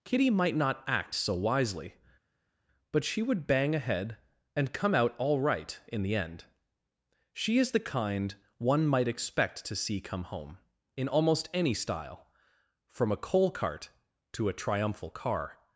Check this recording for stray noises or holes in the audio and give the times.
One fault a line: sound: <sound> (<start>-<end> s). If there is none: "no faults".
no faults